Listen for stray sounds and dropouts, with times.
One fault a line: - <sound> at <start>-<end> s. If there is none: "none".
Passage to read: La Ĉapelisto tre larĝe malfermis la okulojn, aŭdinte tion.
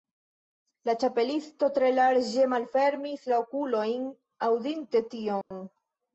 - dropout at 5.4-5.5 s